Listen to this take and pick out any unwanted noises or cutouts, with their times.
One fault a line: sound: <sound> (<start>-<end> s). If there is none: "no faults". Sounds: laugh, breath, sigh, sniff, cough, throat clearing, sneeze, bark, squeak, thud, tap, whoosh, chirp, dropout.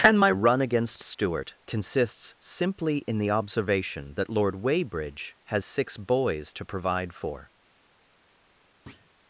sound: thud (8.9-9.1 s)